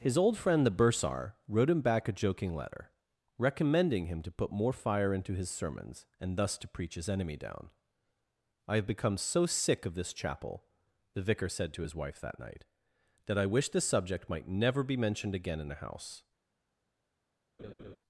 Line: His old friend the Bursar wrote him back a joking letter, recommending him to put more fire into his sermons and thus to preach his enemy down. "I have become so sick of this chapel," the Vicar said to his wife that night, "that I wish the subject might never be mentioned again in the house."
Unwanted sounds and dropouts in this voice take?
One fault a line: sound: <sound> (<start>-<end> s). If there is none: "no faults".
sound: laugh (17.6-18.0 s)